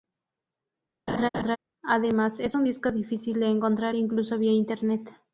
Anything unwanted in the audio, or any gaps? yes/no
yes